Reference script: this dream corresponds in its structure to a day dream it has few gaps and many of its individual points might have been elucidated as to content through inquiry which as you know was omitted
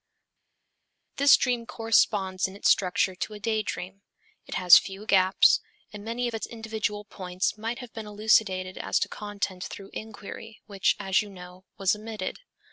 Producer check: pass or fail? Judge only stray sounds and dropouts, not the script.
pass